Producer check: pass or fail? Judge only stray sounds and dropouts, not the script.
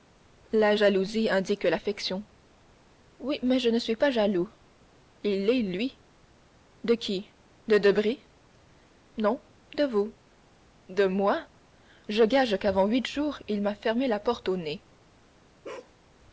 fail